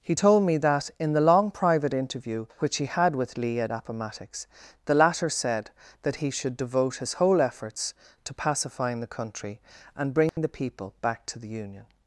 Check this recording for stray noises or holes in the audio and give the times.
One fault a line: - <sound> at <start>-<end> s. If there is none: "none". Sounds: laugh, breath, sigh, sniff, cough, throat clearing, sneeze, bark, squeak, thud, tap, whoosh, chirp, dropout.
- dropout at 10.3-10.4 s